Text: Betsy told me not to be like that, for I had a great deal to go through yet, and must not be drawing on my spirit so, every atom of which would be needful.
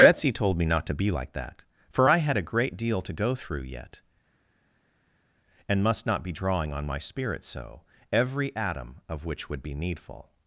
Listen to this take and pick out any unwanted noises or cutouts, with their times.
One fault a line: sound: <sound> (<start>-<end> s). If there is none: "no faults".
no faults